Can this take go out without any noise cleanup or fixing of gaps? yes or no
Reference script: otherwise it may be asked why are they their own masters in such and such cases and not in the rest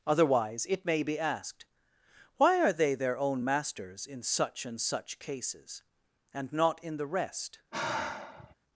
no